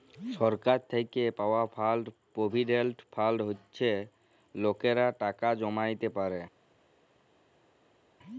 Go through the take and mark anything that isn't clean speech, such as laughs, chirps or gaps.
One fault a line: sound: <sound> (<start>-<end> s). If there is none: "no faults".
no faults